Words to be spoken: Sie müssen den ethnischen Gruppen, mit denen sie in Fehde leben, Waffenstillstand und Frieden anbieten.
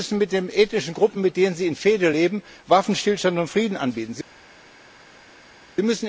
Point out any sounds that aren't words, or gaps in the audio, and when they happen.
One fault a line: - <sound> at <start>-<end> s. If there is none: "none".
none